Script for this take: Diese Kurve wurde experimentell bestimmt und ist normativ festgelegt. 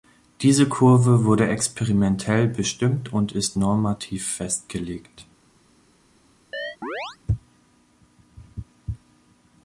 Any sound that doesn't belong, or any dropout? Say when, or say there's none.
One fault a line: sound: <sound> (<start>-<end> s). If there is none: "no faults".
sound: chirp (6.5-7.2 s)